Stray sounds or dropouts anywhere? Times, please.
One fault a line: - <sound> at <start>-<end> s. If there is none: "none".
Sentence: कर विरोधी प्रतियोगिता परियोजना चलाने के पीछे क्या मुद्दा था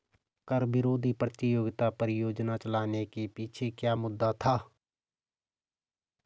none